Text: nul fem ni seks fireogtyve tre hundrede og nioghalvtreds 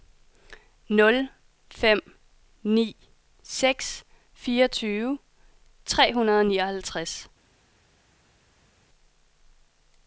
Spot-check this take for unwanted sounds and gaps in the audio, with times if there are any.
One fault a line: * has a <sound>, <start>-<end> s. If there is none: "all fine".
all fine